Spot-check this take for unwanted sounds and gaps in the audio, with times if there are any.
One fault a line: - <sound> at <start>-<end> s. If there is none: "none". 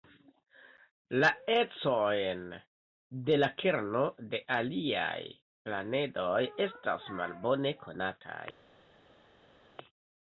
none